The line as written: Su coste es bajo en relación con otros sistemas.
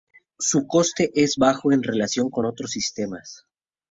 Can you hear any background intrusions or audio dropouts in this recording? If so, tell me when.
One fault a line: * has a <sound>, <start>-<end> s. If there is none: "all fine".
all fine